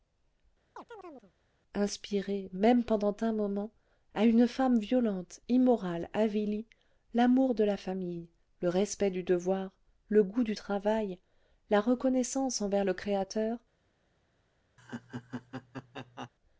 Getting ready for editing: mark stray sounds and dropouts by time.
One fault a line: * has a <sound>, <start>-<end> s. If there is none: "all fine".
* has a chirp, 0.8-1.3 s
* has a laugh, 14.8-16.3 s